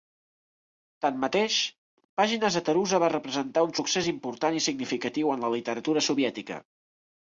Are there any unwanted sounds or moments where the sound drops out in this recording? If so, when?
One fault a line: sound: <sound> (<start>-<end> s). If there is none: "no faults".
no faults